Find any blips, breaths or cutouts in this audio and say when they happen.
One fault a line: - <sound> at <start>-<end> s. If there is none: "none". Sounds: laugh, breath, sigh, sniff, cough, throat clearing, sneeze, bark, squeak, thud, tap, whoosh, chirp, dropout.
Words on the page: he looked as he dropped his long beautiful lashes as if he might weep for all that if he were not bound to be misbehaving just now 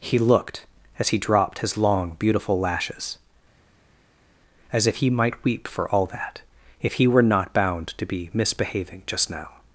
none